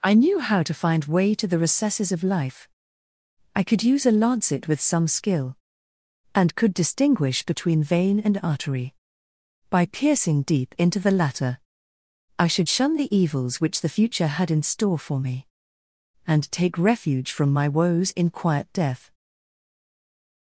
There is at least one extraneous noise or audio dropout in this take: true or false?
false